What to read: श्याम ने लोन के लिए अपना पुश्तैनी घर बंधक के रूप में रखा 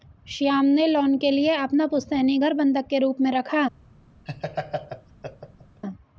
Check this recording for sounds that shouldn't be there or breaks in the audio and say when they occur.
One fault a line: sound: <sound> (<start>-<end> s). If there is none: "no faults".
sound: laugh (4.3-5.8 s)